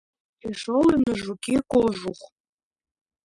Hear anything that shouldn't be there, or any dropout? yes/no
yes